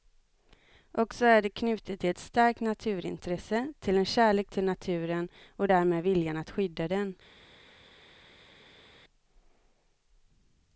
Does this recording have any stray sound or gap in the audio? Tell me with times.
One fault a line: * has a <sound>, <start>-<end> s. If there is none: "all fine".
all fine